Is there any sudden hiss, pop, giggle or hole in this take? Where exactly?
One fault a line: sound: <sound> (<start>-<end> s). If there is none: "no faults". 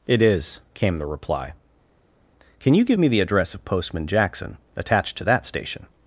no faults